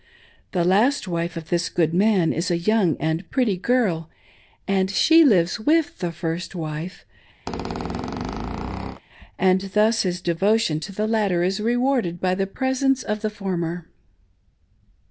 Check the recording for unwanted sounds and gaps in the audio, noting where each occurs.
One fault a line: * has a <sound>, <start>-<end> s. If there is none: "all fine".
* has a squeak, 7.5-9.0 s